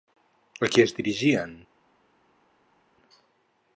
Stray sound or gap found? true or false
false